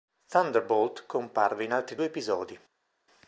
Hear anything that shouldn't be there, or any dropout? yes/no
no